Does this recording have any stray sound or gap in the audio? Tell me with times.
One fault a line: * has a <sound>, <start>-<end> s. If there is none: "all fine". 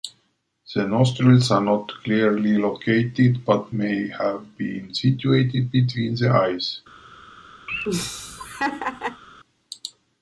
* has a laugh, 7.7-9.2 s